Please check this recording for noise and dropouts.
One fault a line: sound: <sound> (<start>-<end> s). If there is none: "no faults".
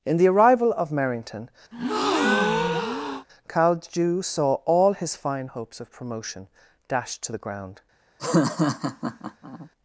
sound: breath (1.7-3.3 s)
sound: laugh (8.2-9.7 s)